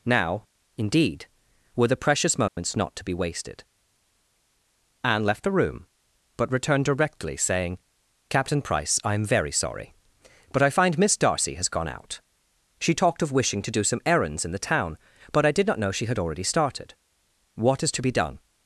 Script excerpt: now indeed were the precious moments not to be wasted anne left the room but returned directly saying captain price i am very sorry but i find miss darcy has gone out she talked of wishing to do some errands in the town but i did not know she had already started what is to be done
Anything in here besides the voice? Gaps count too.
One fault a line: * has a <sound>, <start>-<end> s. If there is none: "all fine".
* has a dropout, 2.5-2.6 s